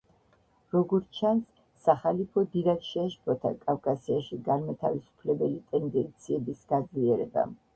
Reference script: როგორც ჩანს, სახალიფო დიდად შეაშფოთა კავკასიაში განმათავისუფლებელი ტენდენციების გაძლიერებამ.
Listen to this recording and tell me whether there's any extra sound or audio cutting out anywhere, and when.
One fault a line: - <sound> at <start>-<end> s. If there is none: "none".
none